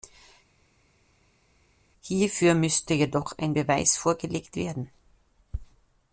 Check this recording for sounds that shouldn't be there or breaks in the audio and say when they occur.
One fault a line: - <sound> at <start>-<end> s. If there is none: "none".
none